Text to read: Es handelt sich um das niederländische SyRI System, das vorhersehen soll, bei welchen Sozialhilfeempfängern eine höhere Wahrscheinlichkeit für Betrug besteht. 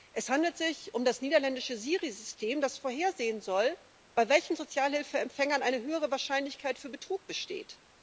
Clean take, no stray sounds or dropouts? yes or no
yes